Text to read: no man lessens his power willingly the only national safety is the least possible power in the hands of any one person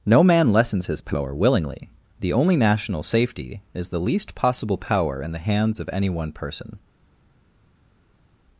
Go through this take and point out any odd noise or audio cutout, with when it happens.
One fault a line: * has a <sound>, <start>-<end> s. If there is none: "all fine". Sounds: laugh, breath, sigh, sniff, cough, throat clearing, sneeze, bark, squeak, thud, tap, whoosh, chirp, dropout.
all fine